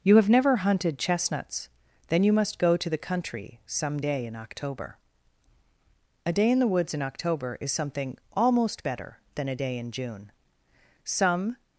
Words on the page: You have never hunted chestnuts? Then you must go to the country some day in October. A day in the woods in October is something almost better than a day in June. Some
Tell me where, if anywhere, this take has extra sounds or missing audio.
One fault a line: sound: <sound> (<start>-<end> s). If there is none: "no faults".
no faults